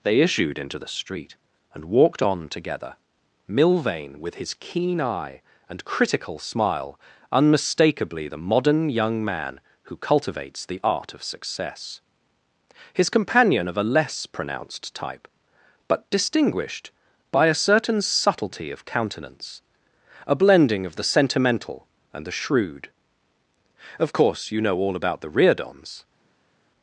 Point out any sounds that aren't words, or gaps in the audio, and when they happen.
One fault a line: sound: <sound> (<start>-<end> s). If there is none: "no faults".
no faults